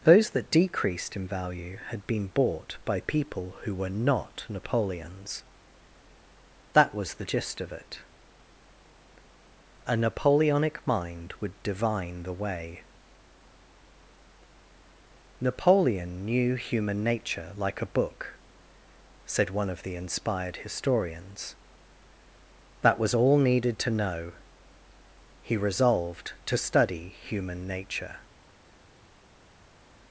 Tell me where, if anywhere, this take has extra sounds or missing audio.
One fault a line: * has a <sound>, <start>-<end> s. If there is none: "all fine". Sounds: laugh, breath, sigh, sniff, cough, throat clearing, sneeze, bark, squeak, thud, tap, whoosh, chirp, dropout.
all fine